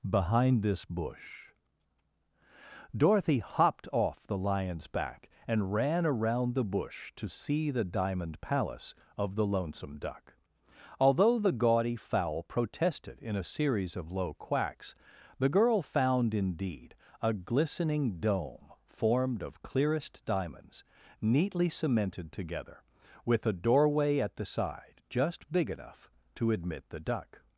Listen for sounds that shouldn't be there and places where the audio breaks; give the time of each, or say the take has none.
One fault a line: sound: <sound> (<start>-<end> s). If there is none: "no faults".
no faults